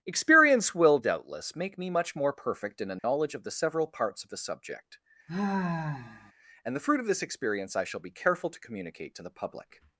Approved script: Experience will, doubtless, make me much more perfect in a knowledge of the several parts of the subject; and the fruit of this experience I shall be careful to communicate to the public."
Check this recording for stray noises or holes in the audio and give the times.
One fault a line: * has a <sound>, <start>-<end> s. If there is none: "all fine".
* has a dropout, 3.0-3.0 s
* has a sigh, 5.3-6.3 s